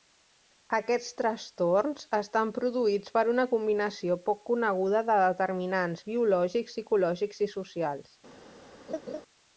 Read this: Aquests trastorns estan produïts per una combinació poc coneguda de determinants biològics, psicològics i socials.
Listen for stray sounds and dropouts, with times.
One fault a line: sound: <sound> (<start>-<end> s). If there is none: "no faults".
sound: laugh (8.9-9.2 s)